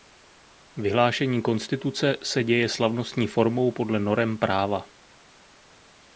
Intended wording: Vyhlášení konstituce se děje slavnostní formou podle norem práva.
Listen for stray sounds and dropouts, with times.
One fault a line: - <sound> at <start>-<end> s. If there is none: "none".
none